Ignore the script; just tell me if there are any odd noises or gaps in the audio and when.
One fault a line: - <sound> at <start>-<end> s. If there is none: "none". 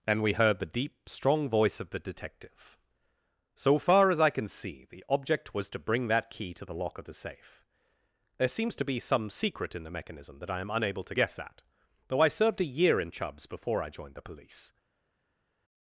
none